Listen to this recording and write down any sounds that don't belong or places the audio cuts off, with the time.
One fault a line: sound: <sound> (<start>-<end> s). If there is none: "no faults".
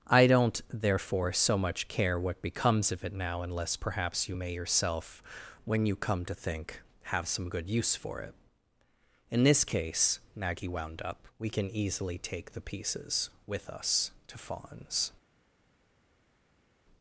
no faults